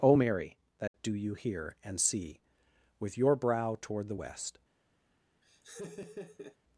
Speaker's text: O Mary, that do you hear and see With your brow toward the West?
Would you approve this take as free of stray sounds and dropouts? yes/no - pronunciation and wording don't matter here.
no